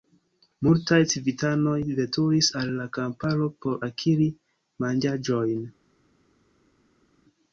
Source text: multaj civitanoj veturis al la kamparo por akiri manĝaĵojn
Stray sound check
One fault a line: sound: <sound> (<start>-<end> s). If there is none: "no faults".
no faults